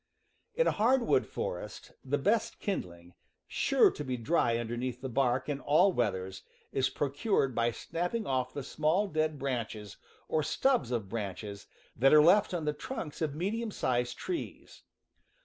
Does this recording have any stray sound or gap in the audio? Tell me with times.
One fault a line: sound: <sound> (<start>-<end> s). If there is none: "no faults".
no faults